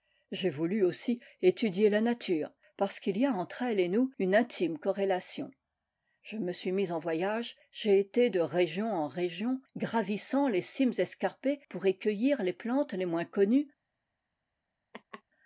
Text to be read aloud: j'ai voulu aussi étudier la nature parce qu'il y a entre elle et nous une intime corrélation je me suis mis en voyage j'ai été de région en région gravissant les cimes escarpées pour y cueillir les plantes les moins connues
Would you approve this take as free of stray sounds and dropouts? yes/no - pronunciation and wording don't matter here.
no